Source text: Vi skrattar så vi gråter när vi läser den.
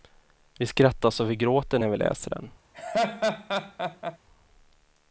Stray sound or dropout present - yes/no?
yes